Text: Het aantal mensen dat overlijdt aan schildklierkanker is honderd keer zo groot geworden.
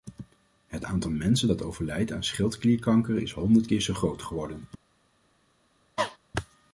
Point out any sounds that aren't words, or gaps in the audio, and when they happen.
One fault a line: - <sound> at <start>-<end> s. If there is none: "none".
- cough at 6.0-6.2 s